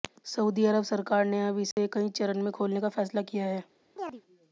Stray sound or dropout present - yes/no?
yes